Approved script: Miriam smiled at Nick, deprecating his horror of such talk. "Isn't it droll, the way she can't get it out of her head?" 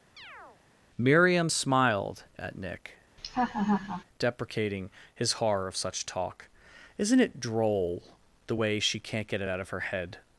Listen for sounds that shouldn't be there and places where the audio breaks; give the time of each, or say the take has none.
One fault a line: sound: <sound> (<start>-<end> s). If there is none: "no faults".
sound: chirp (0.2-0.6 s)
sound: laugh (3.2-4.0 s)